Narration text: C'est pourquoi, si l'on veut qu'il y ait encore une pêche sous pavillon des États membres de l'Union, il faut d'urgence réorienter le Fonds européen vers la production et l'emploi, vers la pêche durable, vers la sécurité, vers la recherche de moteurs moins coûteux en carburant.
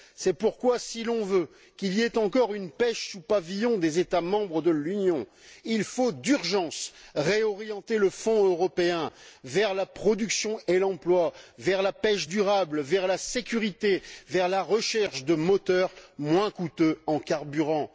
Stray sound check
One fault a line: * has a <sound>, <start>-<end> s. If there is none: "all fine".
all fine